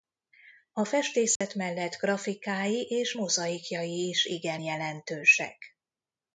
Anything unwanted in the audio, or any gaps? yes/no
yes